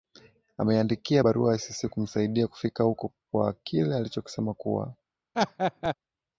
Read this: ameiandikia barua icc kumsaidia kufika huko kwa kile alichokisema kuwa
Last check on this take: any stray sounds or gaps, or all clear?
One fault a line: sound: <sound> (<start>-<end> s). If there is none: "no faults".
sound: laugh (5.3-5.9 s)